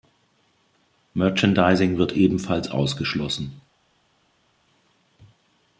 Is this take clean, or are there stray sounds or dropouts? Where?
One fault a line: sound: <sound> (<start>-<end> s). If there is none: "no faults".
no faults